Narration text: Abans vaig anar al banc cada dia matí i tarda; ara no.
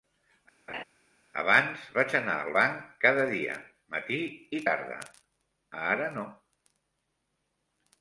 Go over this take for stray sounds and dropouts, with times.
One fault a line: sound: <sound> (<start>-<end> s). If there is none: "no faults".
sound: laugh (0.7-0.8 s)